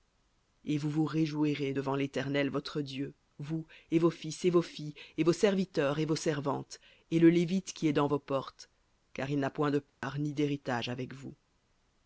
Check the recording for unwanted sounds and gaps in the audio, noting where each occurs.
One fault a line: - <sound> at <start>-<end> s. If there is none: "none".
- dropout at 9.9-10.0 s